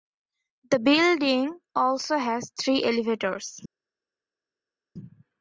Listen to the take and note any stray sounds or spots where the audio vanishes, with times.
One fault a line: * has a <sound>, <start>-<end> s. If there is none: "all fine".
all fine